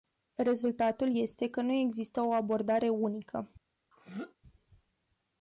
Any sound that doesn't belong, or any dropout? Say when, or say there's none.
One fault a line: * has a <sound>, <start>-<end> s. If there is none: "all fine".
* has a throat clearing, 3.9-4.4 s